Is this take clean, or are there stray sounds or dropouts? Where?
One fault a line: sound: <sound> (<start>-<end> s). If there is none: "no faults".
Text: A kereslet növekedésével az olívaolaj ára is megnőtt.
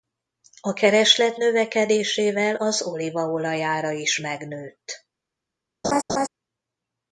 sound: laugh (5.8-6.3 s)